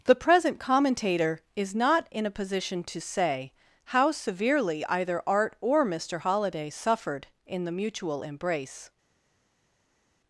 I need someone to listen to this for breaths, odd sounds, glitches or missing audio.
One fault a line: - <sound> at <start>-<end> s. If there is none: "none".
none